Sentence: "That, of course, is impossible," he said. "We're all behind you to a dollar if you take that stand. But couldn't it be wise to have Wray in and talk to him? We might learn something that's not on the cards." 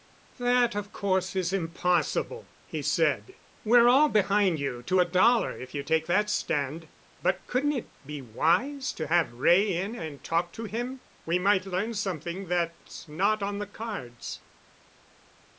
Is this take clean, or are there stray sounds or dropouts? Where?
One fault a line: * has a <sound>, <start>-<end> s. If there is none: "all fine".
all fine